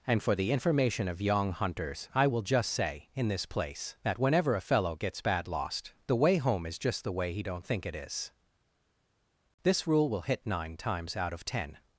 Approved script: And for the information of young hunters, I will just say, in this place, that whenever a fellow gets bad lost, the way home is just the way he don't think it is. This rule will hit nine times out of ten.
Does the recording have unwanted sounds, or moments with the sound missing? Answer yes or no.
no